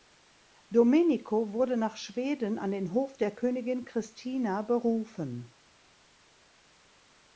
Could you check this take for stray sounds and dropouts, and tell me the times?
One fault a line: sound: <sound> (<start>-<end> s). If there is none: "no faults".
no faults